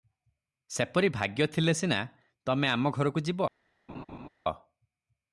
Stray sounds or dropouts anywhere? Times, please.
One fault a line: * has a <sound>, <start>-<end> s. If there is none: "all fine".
* has a laugh, 3.9-4.3 s